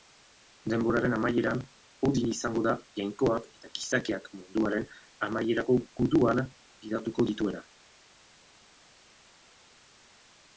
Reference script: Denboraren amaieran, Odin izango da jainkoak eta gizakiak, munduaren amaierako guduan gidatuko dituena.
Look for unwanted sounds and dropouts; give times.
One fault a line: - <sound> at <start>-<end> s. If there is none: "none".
none